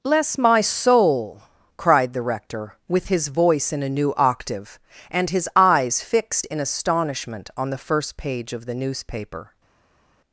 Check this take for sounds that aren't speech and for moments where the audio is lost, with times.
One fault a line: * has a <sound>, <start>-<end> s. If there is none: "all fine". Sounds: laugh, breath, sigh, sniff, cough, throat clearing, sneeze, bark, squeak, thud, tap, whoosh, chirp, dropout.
all fine